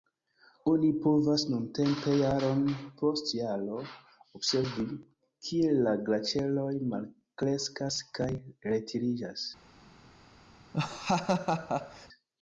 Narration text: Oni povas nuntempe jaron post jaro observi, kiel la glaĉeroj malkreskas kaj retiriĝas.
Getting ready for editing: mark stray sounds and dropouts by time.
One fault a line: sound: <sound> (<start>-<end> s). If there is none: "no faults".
sound: laugh (10.7-12.1 s)